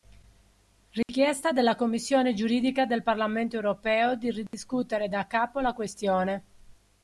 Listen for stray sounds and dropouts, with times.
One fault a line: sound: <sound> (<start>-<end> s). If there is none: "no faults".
sound: dropout (1.0-1.1 s)
sound: dropout (4.5-4.5 s)